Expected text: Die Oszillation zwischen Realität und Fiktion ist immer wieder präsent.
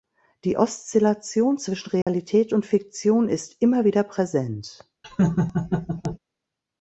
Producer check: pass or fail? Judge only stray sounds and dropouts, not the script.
fail